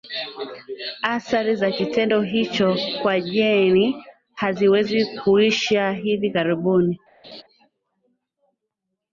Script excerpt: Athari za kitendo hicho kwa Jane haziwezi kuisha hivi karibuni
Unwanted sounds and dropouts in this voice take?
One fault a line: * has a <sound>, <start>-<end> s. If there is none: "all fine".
* has a laugh, 7.2-7.4 s